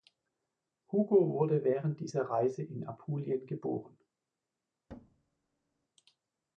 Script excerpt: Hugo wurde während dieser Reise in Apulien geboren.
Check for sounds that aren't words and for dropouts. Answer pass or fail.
fail